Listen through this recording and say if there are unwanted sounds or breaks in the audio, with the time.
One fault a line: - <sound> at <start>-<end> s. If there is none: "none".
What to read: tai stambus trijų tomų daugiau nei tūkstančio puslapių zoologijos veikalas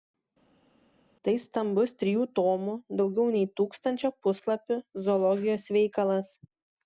none